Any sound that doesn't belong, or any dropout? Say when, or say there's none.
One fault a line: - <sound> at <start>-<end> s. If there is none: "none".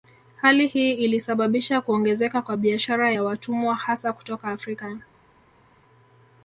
none